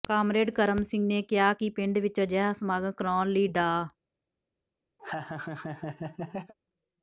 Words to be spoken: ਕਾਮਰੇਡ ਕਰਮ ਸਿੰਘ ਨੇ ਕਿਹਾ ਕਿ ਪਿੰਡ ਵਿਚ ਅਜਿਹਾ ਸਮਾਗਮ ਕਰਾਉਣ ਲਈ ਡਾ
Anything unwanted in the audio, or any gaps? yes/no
yes